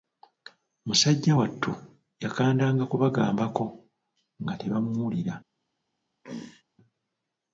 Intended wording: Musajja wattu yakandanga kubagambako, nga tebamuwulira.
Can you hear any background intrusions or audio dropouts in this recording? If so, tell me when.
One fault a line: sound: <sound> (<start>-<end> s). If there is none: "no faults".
sound: throat clearing (6.2-6.6 s)